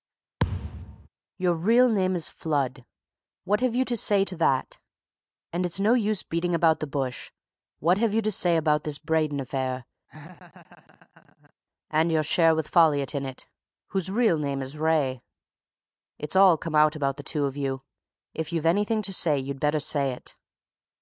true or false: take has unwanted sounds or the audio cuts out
true